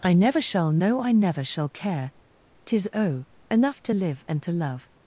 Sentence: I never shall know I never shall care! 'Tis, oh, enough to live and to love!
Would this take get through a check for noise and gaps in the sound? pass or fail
pass